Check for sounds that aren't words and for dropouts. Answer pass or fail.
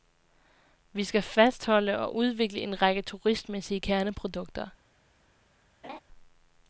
fail